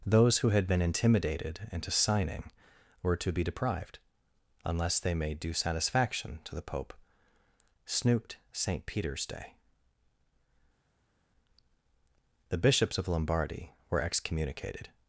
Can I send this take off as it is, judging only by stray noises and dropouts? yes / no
yes